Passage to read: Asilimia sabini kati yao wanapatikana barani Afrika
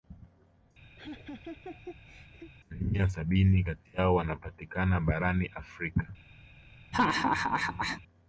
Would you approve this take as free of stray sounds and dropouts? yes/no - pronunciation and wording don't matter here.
no